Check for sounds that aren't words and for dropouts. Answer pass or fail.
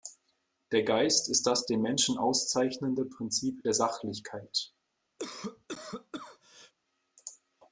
fail